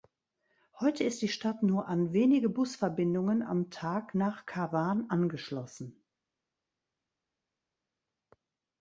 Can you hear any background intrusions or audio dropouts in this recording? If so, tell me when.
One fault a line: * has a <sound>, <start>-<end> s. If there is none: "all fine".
all fine